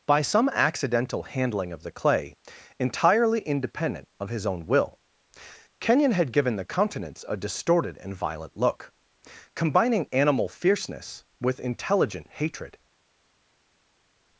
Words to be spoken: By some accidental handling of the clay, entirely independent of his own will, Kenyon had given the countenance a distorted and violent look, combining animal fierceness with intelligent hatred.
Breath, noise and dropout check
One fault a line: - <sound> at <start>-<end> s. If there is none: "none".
none